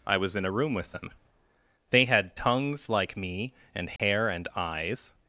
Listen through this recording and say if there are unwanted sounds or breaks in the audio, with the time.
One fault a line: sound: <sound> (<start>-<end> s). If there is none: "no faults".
sound: dropout (4.0-4.0 s)